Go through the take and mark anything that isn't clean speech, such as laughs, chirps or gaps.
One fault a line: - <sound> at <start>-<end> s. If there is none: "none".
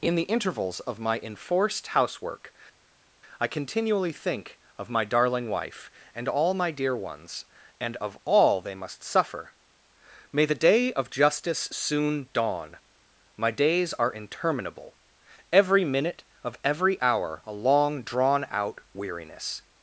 none